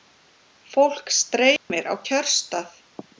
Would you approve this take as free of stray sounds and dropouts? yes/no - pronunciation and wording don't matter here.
no